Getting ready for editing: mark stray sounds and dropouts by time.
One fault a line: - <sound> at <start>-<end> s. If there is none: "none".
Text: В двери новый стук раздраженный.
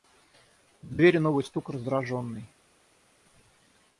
none